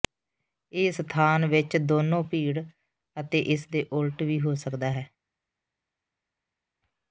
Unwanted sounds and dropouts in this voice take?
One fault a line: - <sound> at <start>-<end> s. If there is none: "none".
none